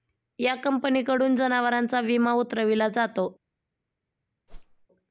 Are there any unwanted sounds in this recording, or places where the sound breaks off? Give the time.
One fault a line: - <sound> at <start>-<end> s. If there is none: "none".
- whoosh at 4.5-4.9 s